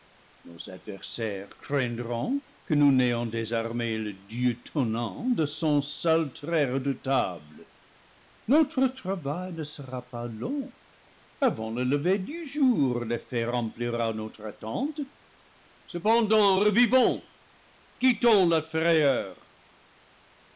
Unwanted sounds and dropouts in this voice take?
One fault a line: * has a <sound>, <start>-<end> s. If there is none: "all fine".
all fine